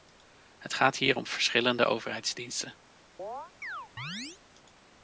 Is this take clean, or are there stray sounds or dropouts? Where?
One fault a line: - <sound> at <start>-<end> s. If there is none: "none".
- chirp at 3.2-4.4 s